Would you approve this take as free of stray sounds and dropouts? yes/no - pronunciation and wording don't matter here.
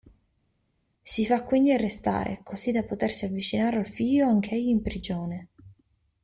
yes